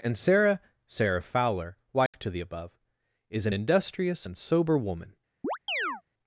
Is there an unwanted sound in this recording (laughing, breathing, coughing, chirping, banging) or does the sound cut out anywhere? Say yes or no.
yes